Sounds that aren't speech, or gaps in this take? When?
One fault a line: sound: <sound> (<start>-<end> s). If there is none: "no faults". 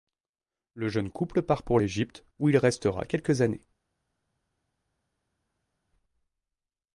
no faults